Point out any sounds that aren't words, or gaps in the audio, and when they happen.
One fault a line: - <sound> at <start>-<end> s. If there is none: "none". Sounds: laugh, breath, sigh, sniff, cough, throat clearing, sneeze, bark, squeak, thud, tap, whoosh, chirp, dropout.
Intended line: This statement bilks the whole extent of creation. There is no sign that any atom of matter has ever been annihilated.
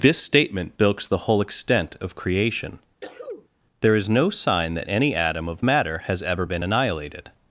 - sneeze at 3.0-3.5 s